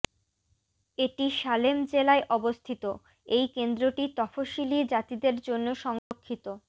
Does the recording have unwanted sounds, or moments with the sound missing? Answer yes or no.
yes